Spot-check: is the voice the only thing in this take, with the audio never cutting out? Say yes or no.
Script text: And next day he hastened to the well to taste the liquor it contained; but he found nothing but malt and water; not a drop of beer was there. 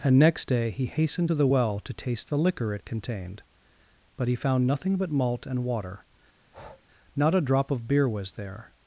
no